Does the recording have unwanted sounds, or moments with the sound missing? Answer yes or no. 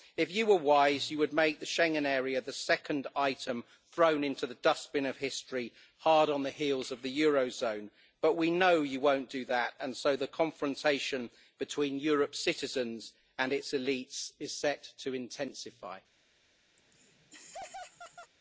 yes